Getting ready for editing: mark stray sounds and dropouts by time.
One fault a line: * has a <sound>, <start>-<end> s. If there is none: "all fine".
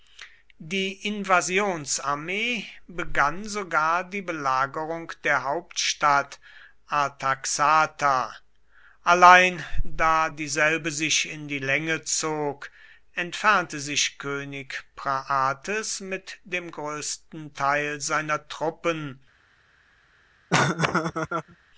* has a laugh, 20.5-21.6 s